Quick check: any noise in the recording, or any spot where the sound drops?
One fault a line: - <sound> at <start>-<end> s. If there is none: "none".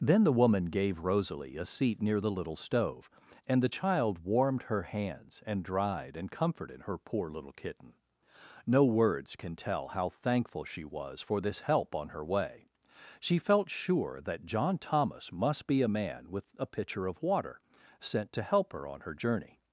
none